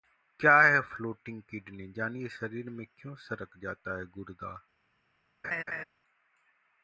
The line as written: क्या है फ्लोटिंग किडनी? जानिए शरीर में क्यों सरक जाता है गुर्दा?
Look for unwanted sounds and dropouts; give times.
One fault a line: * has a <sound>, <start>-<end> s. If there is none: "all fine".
* has a laugh, 5.4-5.8 s